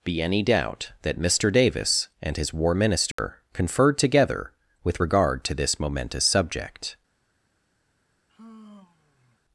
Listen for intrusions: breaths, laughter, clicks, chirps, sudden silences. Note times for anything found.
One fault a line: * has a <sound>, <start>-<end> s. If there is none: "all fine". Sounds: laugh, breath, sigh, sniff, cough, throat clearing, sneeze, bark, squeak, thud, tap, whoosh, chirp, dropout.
* has a dropout, 3.1-3.2 s
* has a sigh, 8.3-9.4 s